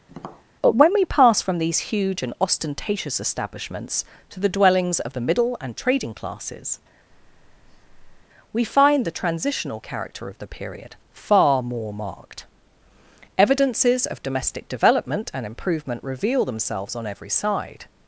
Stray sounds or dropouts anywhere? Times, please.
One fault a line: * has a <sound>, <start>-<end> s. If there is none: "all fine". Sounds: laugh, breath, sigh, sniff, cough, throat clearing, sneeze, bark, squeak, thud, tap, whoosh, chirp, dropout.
* has a tap, 0.1-0.5 s
* has a breath, 7.1-8.2 s